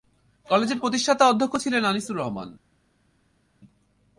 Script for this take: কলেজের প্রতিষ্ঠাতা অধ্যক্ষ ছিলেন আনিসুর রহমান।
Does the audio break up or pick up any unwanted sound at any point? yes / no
no